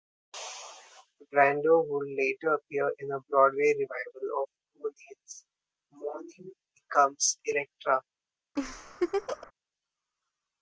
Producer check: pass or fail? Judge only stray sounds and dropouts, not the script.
fail